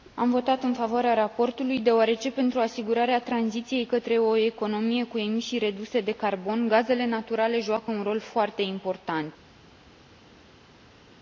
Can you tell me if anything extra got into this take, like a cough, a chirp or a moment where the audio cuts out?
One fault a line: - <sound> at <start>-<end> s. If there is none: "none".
none